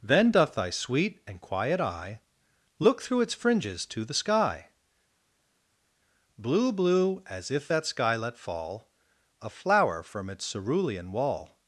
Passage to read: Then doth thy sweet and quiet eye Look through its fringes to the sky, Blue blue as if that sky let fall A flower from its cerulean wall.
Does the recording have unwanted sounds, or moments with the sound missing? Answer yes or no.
no